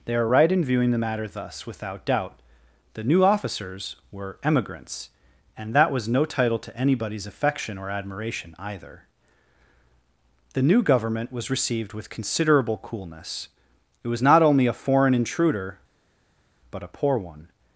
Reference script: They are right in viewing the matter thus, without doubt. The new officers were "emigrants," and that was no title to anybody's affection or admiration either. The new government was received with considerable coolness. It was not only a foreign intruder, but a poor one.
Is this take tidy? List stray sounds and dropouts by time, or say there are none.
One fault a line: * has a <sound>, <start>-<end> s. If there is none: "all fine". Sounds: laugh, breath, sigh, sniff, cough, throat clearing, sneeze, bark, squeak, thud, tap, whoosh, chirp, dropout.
all fine